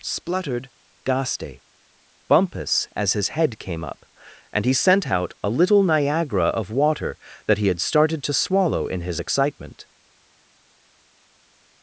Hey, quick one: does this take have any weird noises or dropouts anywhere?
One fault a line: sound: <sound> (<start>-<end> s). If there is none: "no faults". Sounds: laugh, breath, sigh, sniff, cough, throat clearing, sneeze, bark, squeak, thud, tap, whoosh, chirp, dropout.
no faults